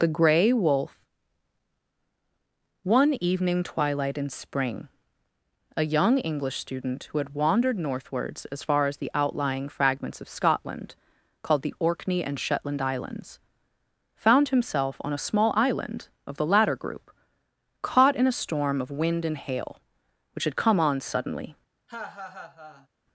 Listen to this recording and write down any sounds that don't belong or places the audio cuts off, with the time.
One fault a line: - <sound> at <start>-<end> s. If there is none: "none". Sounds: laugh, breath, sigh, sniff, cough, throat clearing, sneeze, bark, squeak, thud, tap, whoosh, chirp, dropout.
- laugh at 21.9-22.9 s